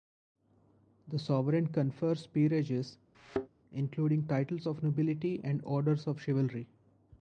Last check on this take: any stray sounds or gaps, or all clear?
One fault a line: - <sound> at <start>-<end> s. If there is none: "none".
- thud at 3.1-3.5 s